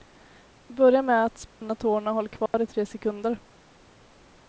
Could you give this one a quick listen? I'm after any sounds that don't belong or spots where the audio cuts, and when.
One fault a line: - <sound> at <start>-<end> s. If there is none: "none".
- dropout at 1.5-1.6 s
- dropout at 2.5-2.5 s